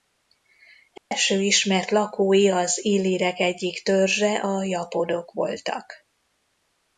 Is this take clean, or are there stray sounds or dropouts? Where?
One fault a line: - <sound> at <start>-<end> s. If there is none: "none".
- dropout at 1.0-1.1 s